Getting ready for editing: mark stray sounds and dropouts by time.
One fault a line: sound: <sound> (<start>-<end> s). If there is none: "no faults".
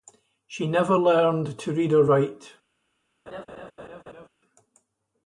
sound: laugh (3.3-4.3 s)